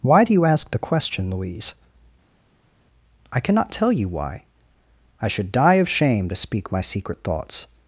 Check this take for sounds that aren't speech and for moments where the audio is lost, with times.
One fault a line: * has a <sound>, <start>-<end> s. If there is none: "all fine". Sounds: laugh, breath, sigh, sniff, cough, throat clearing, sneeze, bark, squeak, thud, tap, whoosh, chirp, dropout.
all fine